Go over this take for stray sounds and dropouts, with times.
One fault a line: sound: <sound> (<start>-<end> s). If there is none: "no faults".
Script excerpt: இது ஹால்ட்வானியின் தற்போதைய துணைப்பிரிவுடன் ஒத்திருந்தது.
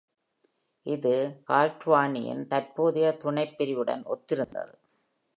sound: dropout (4.4-4.5 s)